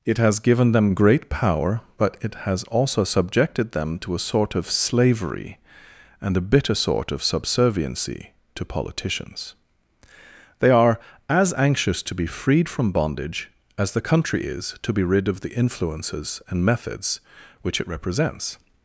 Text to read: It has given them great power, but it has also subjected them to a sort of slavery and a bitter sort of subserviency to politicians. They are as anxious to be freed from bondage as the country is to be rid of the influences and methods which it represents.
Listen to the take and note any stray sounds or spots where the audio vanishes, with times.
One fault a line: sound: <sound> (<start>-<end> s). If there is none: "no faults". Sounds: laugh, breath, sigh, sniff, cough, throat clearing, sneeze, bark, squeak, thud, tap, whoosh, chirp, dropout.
no faults